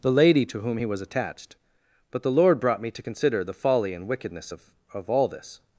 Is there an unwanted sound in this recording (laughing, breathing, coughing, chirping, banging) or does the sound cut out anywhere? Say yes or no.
no